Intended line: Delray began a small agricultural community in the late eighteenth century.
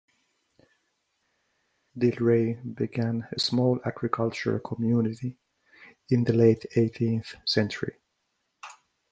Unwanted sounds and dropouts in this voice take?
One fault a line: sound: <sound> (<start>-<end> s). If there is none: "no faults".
no faults